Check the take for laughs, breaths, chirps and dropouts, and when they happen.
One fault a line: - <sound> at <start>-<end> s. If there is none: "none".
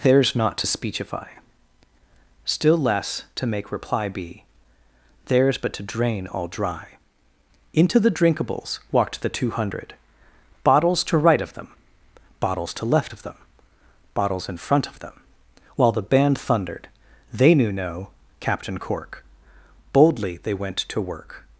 none